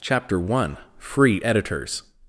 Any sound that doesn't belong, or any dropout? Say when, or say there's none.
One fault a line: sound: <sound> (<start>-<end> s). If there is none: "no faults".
no faults